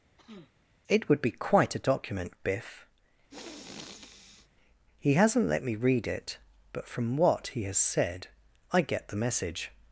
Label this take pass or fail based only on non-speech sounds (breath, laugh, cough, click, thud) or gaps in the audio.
fail